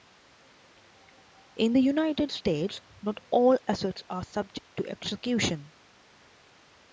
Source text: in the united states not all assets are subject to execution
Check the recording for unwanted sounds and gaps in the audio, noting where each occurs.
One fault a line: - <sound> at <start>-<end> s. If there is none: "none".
- dropout at 4.6-4.7 s